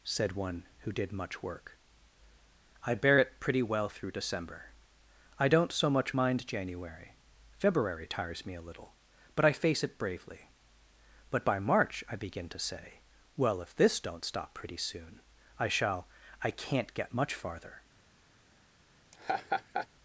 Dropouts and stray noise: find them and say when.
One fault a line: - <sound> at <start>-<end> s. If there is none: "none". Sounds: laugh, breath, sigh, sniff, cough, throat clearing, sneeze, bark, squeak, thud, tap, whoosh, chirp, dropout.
- laugh at 19.1-19.9 s